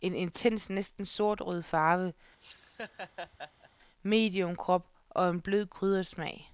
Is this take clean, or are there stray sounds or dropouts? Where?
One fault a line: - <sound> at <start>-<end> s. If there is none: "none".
- laugh at 2.4-3.7 s